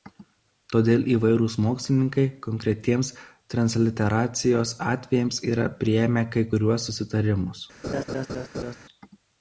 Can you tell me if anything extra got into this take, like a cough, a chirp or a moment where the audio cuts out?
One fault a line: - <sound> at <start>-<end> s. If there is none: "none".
- laugh at 7.8-8.8 s